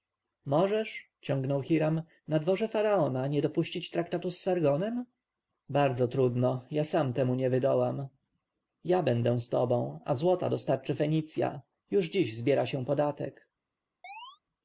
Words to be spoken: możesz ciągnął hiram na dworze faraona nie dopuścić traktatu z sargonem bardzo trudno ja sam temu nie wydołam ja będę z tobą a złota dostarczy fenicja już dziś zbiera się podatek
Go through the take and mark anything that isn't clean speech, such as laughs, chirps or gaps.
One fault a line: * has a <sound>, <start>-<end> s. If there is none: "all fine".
* has a chirp, 14.0-14.4 s